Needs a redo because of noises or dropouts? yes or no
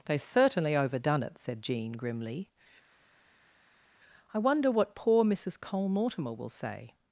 no